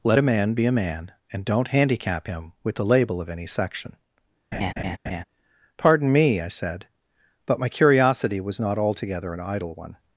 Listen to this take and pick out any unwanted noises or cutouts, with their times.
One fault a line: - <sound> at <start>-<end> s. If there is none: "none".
- laugh at 4.5-5.2 s